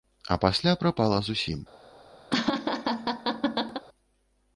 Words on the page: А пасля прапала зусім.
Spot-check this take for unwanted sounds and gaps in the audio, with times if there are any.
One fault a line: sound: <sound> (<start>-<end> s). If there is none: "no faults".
sound: laugh (2.3-3.9 s)